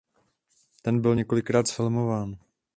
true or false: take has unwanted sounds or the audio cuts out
false